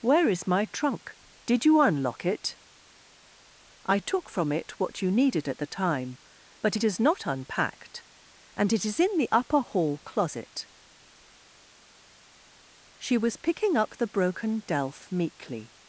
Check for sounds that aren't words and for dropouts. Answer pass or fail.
pass